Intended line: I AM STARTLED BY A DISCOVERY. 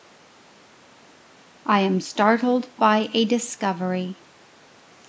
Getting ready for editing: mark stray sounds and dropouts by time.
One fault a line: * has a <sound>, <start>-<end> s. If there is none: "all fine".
all fine